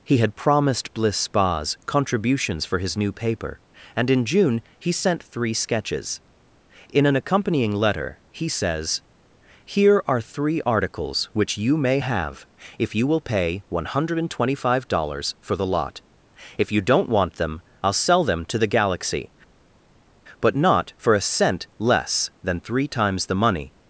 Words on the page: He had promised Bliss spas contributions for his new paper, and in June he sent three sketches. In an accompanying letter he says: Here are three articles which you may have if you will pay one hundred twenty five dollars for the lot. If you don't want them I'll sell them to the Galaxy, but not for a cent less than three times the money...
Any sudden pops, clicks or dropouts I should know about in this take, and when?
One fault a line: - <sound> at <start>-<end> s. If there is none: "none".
none